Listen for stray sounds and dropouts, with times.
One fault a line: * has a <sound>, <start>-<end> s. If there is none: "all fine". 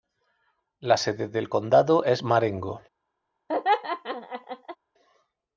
* has a laugh, 3.5-4.8 s